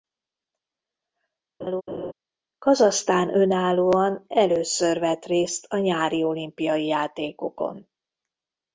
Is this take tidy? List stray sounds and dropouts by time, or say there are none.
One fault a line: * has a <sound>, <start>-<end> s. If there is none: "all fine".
* has a laugh, 1.6-2.1 s